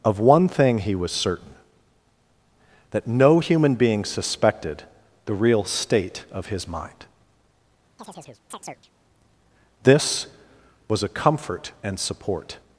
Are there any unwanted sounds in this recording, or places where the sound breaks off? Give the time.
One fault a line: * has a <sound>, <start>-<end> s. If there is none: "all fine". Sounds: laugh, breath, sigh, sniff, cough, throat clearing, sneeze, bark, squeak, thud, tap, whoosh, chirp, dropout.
* has a chirp, 8.0-8.9 s